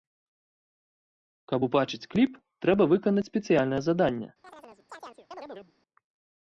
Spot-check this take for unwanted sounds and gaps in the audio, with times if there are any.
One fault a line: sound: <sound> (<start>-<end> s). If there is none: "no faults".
sound: chirp (4.4-5.7 s)